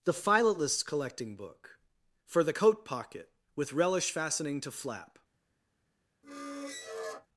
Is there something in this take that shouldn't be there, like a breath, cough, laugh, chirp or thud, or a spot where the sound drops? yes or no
yes